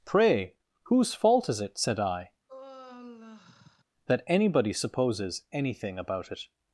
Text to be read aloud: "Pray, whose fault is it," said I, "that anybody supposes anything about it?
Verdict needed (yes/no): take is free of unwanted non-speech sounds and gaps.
no